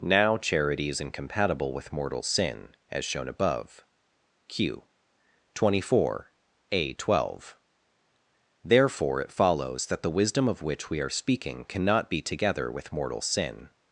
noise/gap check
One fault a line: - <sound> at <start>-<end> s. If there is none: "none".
none